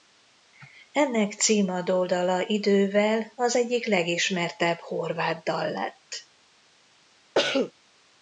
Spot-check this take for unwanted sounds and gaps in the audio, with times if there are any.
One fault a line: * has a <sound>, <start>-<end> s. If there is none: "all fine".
* has a cough, 7.3-7.7 s